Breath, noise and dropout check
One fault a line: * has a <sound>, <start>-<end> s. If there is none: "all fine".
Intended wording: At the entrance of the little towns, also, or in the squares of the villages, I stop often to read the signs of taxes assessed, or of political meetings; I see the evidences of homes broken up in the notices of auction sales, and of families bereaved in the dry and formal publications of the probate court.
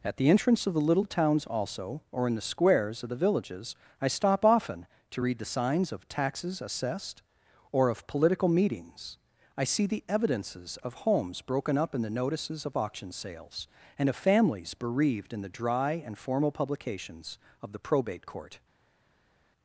all fine